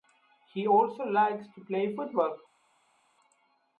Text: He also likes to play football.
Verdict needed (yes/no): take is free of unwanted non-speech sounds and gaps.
yes